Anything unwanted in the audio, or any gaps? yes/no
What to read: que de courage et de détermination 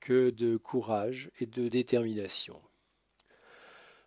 no